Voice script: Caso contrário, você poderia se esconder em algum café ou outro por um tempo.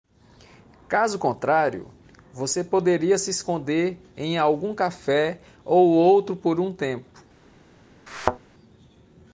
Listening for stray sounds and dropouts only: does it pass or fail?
fail